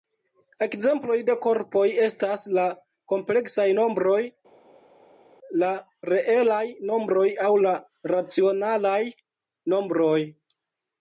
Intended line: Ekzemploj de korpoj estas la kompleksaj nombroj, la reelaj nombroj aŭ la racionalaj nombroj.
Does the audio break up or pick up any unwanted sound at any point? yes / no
no